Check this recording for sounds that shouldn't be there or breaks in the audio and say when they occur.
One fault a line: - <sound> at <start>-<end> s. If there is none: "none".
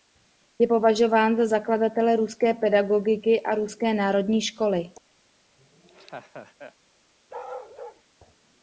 - laugh at 5.6-6.8 s
- bark at 7.3-8.0 s